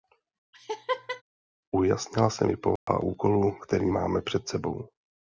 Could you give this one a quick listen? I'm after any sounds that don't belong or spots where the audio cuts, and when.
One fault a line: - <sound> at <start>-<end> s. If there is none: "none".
- laugh at 0.5-1.2 s
- dropout at 2.8-2.9 s